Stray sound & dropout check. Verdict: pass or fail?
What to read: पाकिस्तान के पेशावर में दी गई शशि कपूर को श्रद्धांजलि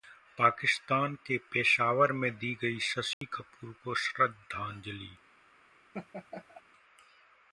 fail